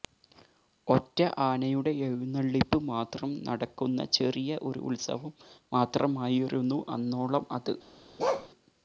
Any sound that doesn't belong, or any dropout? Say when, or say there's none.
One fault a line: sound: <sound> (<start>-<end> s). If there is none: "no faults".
sound: bark (8.2-8.5 s)